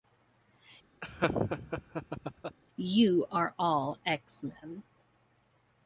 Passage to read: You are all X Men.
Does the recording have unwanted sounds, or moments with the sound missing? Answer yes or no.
yes